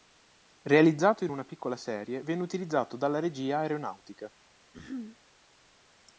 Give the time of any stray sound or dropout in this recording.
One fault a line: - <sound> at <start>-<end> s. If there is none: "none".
- throat clearing at 4.7-5.2 s